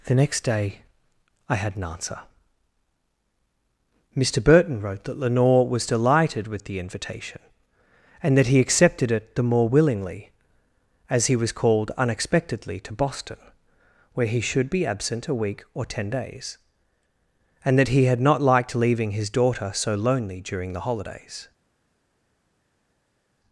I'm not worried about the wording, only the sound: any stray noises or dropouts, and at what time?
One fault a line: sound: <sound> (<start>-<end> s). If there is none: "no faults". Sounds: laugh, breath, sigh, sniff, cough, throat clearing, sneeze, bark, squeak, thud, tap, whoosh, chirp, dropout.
no faults